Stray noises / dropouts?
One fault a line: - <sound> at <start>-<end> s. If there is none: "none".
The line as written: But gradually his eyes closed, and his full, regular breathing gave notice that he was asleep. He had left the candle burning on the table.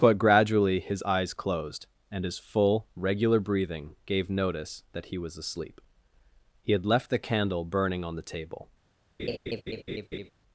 - laugh at 9.2-10.3 s